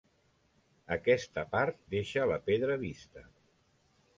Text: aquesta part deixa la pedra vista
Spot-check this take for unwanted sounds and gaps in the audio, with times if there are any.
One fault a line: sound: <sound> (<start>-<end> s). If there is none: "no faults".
no faults